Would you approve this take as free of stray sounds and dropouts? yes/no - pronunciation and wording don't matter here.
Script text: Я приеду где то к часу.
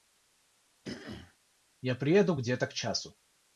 no